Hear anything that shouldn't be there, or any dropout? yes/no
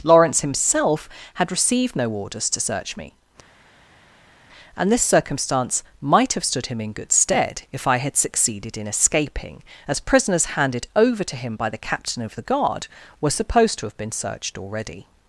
no